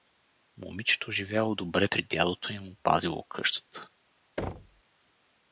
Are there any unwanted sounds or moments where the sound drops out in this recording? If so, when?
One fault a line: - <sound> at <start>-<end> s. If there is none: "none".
- thud at 4.4-4.8 s